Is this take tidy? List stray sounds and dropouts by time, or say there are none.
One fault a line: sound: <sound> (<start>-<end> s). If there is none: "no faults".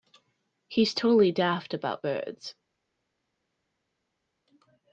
no faults